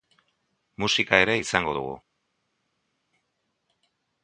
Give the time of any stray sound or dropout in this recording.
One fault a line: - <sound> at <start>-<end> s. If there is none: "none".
none